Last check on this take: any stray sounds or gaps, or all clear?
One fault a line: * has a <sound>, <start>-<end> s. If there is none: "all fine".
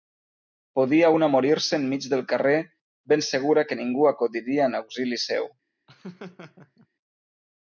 * has a laugh, 5.9-6.9 s